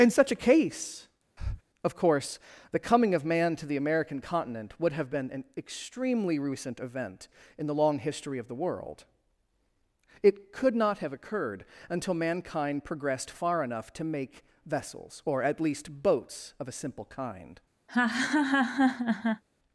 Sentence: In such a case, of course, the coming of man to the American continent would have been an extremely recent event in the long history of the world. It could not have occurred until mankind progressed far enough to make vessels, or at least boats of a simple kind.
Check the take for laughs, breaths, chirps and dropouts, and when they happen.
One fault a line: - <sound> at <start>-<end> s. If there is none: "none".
- breath at 1.4-1.6 s
- laugh at 17.9-19.4 s